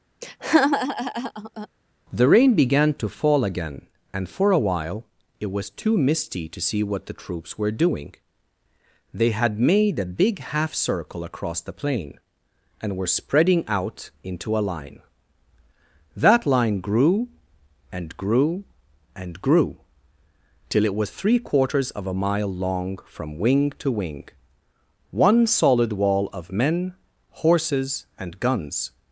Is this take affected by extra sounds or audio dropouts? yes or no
yes